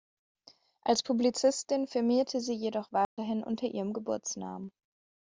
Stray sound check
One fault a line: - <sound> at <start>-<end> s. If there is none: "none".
- dropout at 3.0-3.2 s